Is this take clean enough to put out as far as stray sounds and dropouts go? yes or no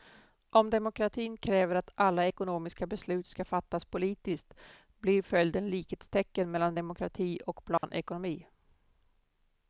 no